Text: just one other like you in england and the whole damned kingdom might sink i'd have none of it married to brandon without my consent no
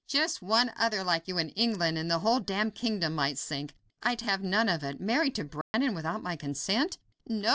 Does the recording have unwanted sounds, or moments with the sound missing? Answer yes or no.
yes